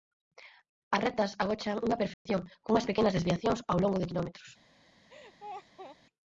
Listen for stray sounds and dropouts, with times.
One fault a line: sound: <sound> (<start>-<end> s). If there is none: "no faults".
sound: dropout (2.1-2.3 s)
sound: laugh (5.1-6.0 s)